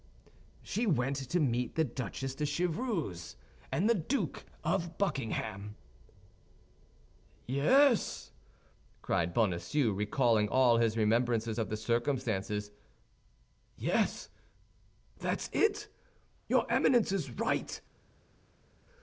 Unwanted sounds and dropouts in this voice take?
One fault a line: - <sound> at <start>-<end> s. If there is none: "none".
none